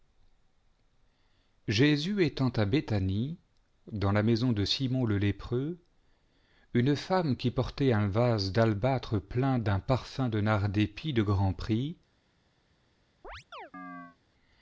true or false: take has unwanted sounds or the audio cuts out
true